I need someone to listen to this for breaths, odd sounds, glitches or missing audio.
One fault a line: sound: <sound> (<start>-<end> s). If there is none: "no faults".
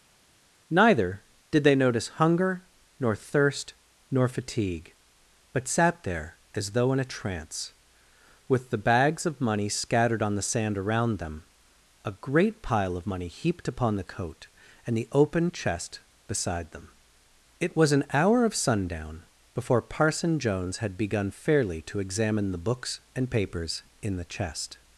no faults